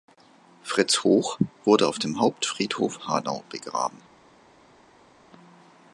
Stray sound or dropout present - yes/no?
no